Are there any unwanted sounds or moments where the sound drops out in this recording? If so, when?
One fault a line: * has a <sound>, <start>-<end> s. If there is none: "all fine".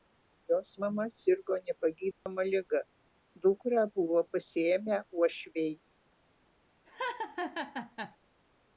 * has a dropout, 2.1-2.3 s
* has a laugh, 6.9-8.2 s